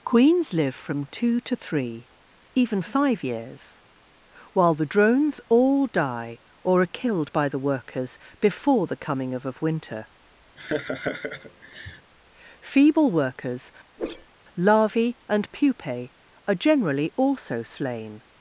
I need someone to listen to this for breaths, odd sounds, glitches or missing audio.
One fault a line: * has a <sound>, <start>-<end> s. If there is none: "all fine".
* has a laugh, 10.6-12.1 s
* has a whoosh, 14.0-14.3 s